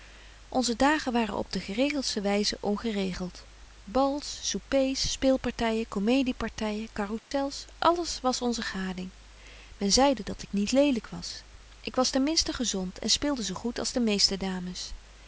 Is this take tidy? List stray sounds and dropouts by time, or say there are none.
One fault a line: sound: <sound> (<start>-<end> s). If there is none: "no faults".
sound: dropout (7.2-7.3 s)